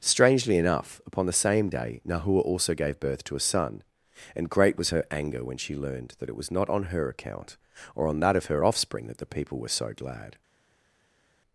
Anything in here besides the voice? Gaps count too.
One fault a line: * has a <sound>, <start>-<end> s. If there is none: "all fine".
all fine